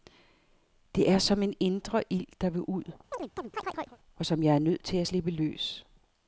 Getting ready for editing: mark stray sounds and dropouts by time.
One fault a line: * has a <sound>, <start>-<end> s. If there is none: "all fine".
* has a chirp, 3.1-4.0 s